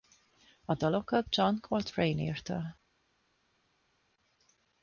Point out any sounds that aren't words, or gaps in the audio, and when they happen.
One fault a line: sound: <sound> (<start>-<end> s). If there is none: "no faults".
no faults